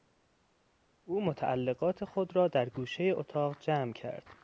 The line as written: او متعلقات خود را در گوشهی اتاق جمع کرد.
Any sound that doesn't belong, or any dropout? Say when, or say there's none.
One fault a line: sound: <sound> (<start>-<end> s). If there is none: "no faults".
no faults